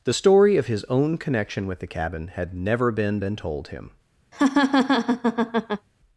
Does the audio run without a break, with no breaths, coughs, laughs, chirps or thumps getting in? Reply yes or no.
no